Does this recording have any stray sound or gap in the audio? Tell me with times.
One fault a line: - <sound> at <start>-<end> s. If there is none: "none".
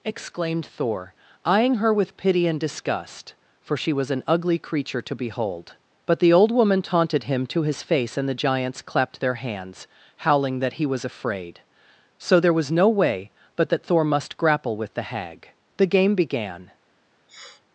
- sniff at 17.3-17.6 s